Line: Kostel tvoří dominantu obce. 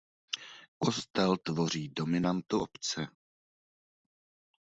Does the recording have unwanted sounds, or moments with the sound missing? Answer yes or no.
no